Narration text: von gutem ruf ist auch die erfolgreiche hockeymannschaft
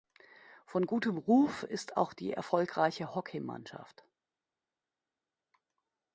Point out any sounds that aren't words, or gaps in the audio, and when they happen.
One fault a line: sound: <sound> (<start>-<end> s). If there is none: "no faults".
no faults